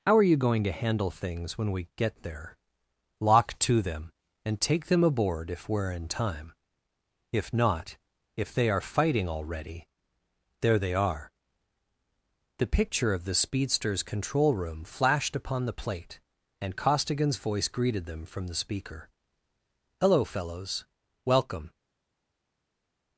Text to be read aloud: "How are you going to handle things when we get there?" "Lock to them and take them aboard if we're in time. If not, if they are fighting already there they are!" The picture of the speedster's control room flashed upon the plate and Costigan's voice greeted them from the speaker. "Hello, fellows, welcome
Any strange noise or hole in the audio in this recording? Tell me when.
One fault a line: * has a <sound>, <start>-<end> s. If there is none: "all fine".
all fine